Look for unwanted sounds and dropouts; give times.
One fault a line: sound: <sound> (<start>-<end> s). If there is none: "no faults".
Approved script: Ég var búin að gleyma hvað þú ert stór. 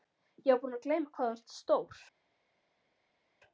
no faults